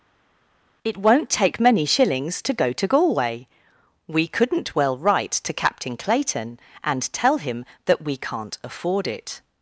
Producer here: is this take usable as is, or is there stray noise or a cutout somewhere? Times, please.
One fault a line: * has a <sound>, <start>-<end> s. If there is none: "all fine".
all fine